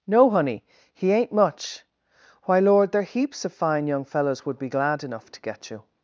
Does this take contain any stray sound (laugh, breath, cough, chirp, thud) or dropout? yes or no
no